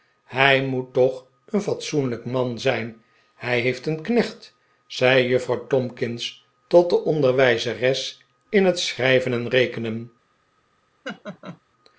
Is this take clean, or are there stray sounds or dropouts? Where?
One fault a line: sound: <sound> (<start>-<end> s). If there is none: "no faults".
sound: laugh (11.0-11.6 s)